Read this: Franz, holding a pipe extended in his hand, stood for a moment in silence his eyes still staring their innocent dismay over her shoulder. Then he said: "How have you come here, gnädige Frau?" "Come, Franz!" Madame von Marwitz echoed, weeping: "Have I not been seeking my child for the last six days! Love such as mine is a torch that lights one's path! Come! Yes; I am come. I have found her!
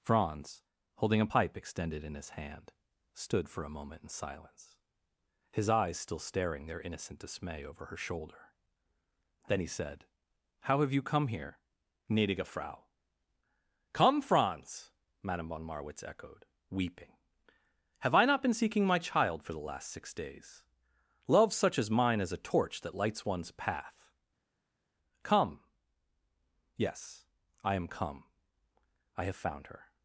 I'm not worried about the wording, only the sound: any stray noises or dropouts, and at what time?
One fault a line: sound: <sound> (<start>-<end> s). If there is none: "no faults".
no faults